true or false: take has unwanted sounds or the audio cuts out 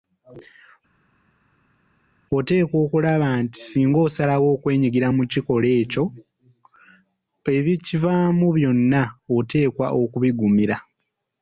false